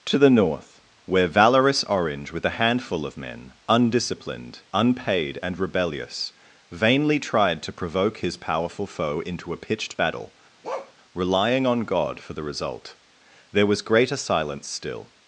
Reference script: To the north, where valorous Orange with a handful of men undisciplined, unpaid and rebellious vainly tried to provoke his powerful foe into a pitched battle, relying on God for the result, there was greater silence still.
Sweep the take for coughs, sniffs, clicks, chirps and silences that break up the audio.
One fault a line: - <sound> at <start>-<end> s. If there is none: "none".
- bark at 10.6-10.9 s